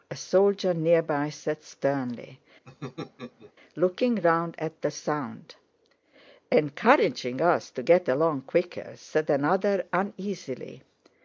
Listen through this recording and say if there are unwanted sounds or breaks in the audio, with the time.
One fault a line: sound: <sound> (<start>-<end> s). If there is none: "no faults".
sound: laugh (2.7-3.5 s)